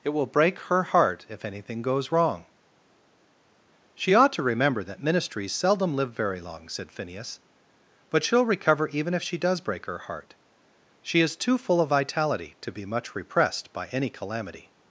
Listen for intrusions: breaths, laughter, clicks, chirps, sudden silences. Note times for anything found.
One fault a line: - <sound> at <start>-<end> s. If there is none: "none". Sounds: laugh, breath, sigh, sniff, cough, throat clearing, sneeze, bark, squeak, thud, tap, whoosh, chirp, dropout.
none